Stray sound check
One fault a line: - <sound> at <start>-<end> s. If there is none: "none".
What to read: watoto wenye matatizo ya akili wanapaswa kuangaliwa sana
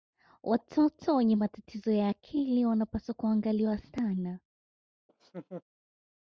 - laugh at 5.1-5.6 s